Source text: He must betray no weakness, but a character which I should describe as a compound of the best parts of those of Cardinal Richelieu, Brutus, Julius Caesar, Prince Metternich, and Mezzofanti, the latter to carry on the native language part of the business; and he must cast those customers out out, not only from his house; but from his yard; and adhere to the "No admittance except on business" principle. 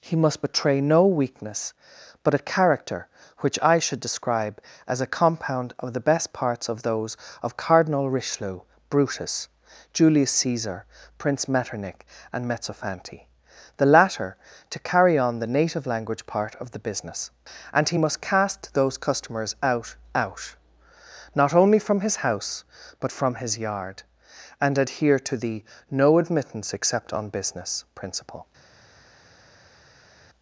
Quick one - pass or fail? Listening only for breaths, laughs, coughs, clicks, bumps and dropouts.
pass